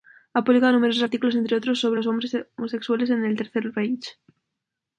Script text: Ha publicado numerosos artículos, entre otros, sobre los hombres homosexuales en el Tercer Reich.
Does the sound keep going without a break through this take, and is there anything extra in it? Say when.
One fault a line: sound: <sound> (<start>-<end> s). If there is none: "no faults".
no faults